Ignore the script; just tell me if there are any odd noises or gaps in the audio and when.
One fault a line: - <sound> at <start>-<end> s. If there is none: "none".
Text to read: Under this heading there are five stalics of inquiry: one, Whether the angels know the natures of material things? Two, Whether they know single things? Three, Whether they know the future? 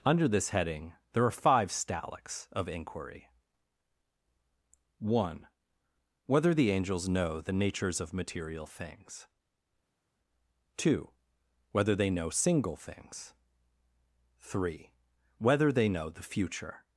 none